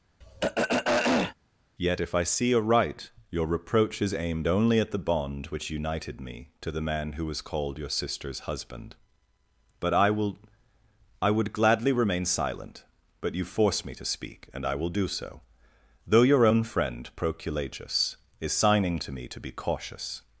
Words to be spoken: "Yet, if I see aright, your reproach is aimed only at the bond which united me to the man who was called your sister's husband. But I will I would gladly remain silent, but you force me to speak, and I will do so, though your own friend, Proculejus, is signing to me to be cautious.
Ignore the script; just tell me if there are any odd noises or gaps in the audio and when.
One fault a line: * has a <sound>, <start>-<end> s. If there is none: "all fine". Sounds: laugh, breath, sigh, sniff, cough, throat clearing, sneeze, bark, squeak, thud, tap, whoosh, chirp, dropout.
* has a throat clearing, 0.2-1.4 s